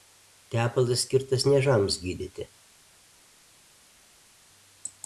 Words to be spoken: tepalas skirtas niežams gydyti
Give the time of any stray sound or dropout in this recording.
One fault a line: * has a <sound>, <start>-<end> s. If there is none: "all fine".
all fine